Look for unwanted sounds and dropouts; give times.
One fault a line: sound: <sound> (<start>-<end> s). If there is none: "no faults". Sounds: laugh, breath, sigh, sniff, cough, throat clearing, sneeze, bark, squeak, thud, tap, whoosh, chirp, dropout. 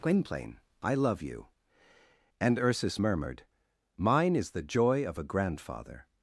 no faults